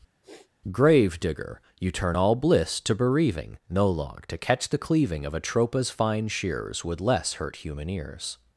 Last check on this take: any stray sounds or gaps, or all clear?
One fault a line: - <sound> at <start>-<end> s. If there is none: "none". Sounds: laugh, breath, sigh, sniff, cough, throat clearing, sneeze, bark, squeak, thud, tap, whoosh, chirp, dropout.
- sniff at 0.2-0.5 s